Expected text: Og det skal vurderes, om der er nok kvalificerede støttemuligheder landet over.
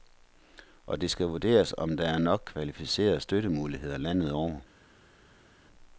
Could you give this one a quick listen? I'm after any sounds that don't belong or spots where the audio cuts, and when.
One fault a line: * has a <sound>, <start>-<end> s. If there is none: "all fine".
all fine